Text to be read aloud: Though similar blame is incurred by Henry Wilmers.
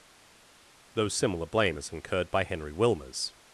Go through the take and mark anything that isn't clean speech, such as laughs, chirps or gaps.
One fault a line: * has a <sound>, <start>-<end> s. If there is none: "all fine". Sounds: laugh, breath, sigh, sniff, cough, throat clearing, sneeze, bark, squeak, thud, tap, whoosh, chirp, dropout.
all fine